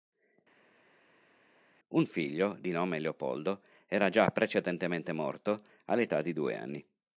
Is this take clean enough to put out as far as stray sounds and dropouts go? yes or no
yes